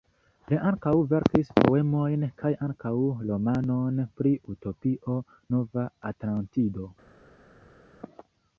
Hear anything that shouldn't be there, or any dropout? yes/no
no